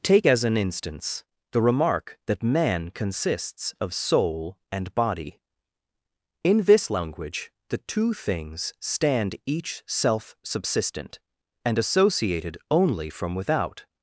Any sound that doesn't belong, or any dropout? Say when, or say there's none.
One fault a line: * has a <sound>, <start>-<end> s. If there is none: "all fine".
all fine